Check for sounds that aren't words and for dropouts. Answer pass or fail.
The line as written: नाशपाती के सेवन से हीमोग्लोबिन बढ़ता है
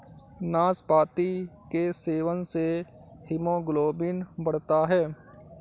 pass